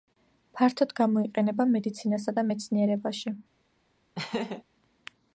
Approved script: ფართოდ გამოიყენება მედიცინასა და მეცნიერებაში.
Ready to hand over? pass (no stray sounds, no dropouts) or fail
fail